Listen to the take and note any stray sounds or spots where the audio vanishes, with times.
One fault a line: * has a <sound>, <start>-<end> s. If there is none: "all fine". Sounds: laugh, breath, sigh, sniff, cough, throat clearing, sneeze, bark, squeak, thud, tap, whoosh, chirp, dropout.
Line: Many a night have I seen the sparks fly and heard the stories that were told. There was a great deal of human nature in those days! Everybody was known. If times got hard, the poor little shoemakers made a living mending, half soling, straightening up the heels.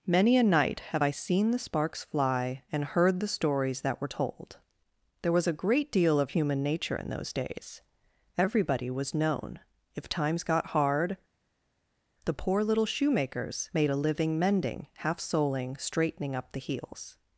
all fine